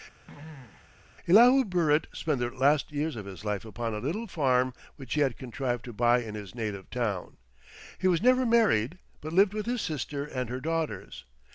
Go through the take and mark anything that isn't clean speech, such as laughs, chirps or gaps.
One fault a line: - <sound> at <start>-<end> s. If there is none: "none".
- throat clearing at 0.3-0.9 s